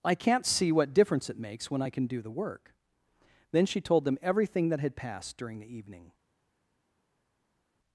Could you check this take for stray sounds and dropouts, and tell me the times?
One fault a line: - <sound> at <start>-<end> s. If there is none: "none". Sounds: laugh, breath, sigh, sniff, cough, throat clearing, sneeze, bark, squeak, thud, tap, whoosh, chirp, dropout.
none